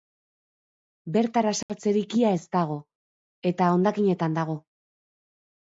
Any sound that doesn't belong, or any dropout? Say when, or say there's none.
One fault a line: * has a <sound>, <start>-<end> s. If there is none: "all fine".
* has a dropout, 1.6-1.7 s